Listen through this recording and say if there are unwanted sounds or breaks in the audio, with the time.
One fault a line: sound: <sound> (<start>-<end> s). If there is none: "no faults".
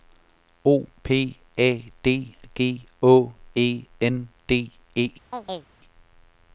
sound: chirp (5.3-5.7 s)